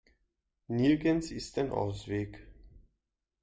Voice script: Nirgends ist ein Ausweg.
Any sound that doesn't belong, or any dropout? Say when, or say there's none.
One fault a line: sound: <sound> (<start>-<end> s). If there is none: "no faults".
no faults